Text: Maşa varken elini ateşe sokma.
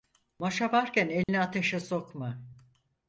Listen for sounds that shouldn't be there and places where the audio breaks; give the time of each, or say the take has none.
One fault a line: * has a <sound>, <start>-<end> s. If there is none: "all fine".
* has a dropout, 1.2-1.3 s